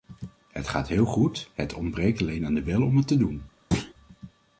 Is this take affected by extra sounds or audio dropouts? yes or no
yes